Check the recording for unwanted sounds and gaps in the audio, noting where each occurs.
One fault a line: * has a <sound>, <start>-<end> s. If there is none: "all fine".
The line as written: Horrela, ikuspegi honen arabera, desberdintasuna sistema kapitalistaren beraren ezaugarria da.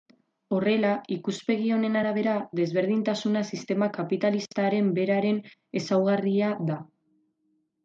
all fine